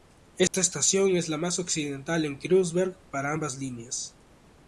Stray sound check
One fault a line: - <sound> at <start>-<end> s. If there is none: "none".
- dropout at 0.5-0.5 s